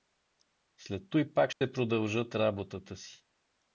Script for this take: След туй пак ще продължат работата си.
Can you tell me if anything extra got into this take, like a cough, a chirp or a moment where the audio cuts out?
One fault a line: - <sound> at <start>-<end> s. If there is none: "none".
- dropout at 1.5-1.6 s